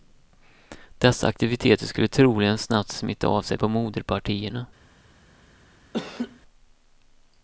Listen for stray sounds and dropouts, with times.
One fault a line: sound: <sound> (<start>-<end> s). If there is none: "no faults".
sound: laugh (5.9-6.4 s)